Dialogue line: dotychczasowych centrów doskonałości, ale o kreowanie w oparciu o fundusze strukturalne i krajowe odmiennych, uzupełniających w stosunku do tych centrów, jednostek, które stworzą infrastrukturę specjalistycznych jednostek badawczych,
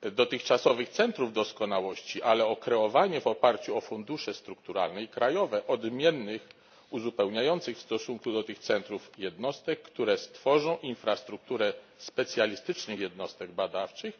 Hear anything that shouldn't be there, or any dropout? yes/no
no